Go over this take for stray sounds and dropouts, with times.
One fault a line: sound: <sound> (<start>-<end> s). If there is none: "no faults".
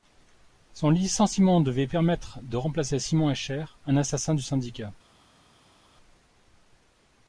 no faults